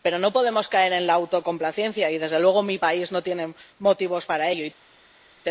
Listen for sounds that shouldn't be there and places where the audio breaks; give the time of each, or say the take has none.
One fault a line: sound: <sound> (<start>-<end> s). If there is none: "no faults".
no faults